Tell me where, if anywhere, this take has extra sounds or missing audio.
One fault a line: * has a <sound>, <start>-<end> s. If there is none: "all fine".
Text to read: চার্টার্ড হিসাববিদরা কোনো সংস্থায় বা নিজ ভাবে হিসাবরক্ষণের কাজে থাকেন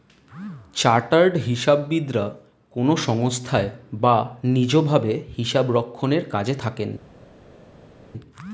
all fine